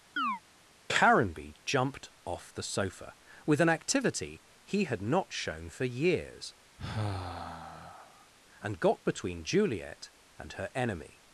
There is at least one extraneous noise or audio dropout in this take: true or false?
true